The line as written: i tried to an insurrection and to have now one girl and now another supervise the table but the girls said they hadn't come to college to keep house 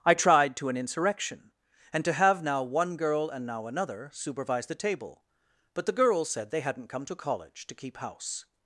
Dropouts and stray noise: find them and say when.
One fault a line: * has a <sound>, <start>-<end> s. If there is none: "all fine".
all fine